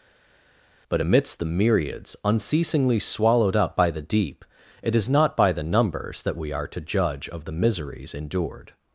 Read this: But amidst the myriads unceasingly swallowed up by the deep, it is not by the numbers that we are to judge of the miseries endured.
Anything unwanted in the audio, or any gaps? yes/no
no